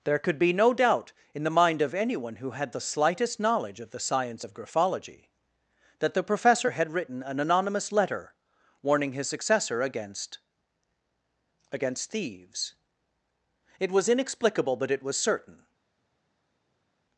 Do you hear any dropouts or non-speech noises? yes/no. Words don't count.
no